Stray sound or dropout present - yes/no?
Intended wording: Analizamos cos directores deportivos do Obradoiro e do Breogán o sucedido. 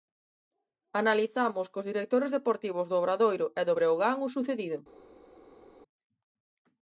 no